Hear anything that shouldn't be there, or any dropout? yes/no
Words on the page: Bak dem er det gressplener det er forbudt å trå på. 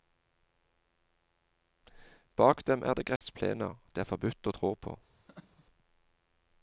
yes